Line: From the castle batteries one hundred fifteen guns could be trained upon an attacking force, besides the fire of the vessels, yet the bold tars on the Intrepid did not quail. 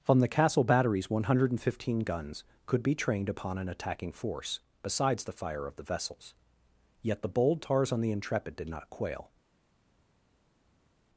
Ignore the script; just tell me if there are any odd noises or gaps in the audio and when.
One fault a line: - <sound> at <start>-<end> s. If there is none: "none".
none